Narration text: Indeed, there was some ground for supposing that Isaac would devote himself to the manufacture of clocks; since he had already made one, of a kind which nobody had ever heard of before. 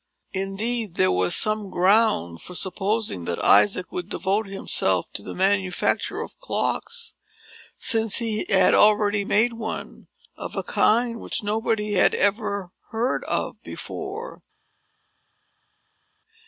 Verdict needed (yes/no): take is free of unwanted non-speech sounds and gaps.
yes